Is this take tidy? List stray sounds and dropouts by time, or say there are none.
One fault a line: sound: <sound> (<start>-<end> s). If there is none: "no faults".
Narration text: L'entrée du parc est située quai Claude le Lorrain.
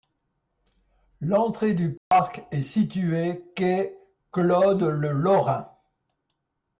sound: dropout (2.0-2.1 s)